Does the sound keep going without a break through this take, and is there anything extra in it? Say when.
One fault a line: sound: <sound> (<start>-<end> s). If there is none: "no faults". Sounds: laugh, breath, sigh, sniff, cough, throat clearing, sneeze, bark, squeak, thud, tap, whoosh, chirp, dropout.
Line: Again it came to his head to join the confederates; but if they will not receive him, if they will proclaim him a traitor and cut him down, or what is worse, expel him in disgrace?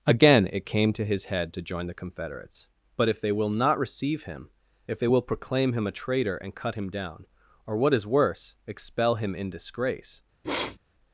sound: sniff (10.4-10.8 s)